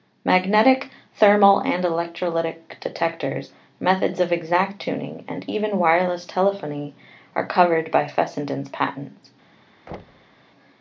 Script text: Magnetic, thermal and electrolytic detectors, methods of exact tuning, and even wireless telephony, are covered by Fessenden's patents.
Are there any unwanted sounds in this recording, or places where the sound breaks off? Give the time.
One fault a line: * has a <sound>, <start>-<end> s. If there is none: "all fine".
* has a thud, 9.9-10.4 s